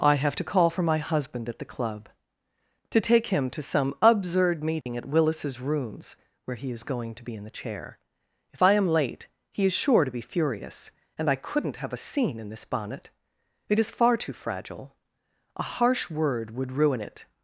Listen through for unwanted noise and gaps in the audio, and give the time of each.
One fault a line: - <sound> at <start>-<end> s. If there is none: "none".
- dropout at 4.8-4.9 s